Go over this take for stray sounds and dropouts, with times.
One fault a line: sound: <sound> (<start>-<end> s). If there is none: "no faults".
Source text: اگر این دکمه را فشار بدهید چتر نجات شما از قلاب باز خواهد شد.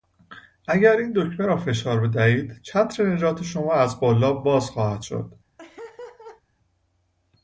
sound: laugh (5.6-6.4 s)